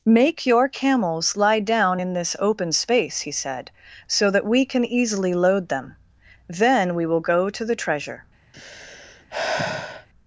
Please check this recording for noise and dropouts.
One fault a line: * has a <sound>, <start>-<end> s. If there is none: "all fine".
* has a sigh, 8.5-10.1 s